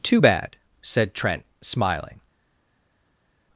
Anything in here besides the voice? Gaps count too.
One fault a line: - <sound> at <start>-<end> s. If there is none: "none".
none